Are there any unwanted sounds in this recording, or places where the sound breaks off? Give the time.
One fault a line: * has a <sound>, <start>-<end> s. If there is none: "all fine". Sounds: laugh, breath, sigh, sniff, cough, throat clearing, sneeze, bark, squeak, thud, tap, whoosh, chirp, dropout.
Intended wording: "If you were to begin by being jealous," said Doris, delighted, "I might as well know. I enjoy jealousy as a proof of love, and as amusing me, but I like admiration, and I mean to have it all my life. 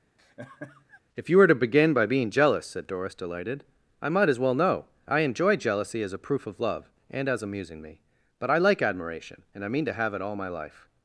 * has a laugh, 0.2-1.0 s